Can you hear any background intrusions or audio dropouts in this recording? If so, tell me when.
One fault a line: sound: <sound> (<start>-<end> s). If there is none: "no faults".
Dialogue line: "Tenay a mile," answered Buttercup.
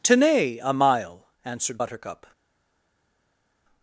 no faults